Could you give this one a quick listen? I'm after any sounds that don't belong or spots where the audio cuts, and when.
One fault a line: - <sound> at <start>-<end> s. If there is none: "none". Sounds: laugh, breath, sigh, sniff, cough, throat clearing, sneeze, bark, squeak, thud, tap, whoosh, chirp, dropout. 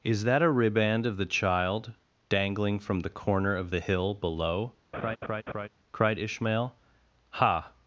- laugh at 4.9-5.7 s